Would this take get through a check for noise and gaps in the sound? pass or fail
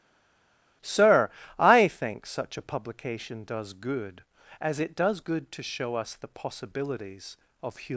pass